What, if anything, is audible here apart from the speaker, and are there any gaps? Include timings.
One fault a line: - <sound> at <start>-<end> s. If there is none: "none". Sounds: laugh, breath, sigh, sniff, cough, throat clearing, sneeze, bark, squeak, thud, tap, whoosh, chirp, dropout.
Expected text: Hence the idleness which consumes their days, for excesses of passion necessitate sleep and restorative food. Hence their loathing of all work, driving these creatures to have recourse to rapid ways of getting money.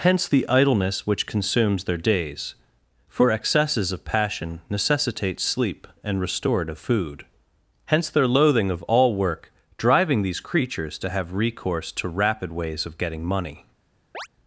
- chirp at 14.1-14.3 s